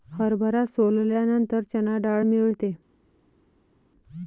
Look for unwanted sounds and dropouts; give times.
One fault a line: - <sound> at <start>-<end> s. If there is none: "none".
none